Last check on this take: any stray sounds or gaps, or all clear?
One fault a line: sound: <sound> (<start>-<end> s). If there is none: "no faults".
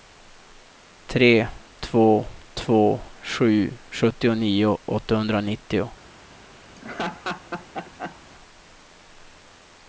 sound: laugh (6.7-8.2 s)